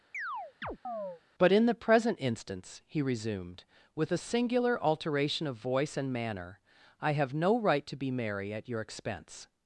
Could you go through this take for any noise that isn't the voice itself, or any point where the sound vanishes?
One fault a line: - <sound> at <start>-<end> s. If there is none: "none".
- chirp at 0.1-1.2 s